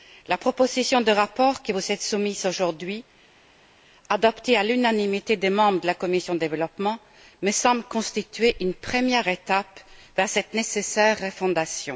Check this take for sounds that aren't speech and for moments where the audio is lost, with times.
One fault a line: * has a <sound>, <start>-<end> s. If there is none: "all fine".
all fine